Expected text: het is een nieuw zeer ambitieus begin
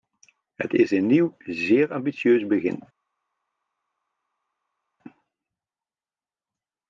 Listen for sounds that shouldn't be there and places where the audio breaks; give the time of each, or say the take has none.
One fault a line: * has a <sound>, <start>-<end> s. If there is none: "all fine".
all fine